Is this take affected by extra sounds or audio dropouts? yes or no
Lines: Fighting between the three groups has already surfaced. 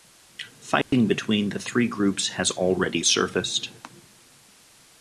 yes